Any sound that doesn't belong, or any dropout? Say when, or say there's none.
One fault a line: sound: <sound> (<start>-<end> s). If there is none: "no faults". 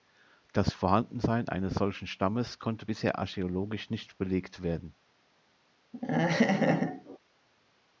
sound: laugh (5.9-7.2 s)